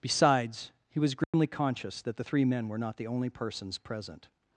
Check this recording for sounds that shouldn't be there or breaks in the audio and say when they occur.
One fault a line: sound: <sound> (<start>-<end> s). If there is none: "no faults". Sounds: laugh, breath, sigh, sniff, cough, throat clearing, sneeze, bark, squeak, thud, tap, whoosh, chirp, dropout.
sound: dropout (1.2-1.3 s)